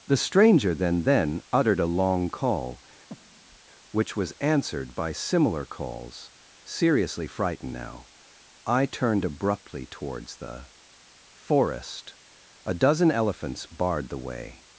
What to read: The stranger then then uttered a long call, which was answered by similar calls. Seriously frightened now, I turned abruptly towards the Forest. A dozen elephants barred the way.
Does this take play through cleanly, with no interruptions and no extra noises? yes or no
no